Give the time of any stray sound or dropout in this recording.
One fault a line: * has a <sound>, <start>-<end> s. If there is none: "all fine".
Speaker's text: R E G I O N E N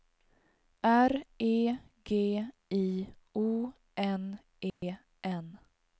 * has a dropout, 4.7-4.8 s